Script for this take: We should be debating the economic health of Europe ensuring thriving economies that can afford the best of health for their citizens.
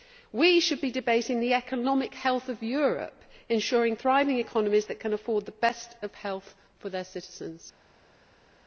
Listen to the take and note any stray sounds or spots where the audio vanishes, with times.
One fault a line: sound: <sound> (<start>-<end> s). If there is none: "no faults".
no faults